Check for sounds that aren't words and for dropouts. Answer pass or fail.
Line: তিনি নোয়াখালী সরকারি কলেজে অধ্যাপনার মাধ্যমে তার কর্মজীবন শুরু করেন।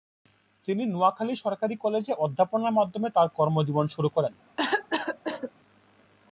fail